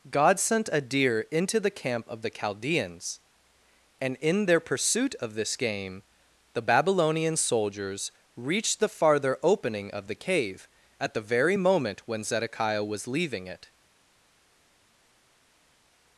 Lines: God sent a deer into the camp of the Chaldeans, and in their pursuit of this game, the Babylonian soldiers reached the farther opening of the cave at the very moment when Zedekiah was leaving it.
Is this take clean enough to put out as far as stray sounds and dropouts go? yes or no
yes